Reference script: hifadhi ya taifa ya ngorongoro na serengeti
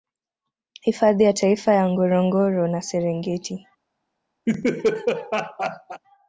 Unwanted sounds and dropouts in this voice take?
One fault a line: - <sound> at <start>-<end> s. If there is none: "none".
- laugh at 4.5-6.0 s